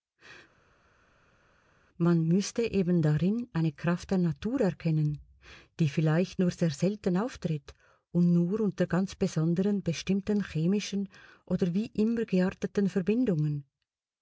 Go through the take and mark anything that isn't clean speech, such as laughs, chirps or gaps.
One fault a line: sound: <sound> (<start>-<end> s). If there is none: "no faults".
no faults